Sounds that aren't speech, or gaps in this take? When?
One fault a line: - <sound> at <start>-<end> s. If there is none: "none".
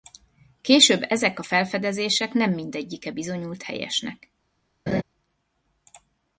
- laugh at 4.9-5.0 s